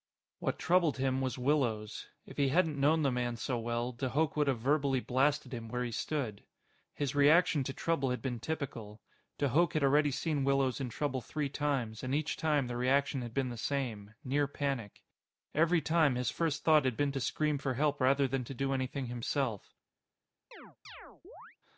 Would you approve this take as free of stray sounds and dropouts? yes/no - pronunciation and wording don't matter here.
no